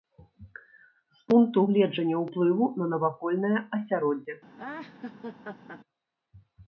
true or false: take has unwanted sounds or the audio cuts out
true